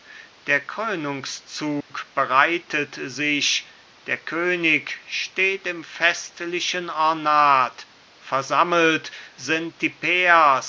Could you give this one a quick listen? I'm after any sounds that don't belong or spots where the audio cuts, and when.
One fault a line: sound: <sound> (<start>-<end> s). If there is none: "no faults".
sound: dropout (1.8-1.9 s)